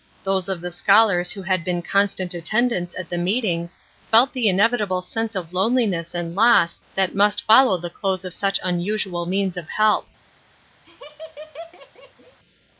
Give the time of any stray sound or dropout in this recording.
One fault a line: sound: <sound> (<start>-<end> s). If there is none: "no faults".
sound: laugh (10.8-12.4 s)